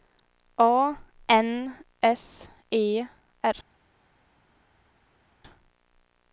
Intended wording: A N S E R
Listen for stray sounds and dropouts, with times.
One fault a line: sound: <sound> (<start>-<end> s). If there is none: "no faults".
no faults